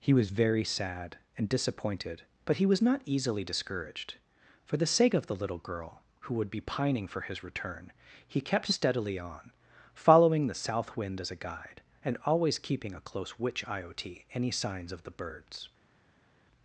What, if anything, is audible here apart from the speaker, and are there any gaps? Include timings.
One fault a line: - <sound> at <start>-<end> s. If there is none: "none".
none